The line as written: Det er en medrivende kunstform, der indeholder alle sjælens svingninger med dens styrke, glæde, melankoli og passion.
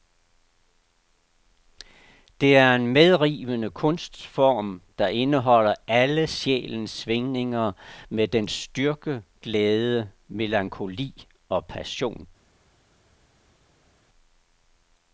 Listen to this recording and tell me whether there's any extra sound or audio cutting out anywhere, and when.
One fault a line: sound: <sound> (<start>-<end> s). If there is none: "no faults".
no faults